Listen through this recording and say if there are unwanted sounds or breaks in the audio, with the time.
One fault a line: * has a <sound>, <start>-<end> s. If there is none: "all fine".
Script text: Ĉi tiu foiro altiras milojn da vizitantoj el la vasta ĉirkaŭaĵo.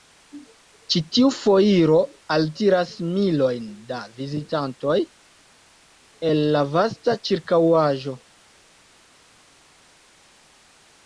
all fine